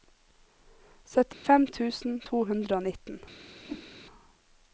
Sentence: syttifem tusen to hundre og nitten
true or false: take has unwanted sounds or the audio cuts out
true